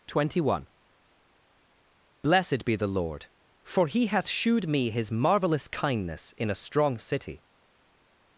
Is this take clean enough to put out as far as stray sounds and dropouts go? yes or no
yes